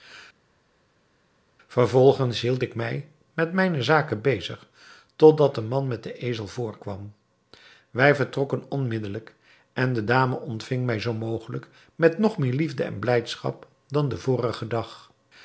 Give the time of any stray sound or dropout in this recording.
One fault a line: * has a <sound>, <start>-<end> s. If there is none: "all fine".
all fine